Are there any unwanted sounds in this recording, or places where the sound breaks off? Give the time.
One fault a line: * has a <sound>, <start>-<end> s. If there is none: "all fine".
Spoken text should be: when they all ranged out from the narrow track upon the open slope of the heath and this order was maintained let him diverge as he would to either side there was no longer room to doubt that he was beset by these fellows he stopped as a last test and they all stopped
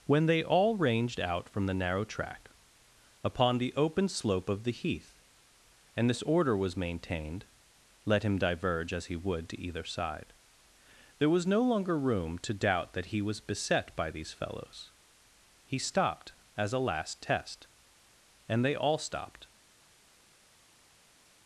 all fine